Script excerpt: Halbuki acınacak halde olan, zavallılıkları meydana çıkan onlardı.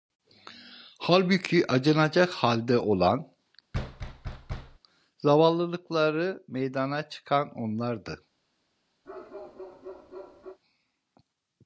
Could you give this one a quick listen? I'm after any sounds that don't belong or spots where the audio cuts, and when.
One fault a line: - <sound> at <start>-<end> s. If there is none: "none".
- thud at 3.7-4.8 s
- bark at 9.0-10.6 s